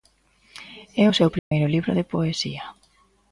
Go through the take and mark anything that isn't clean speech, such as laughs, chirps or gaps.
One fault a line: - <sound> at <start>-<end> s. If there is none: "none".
- dropout at 1.4-1.5 s